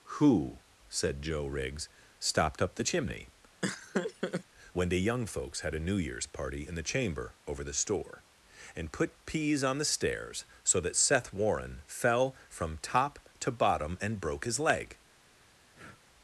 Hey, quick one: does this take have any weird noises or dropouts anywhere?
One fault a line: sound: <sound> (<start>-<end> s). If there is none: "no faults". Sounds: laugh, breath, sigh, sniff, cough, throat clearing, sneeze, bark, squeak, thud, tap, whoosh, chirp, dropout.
sound: laugh (3.6-4.4 s)
sound: breath (15.7-16.0 s)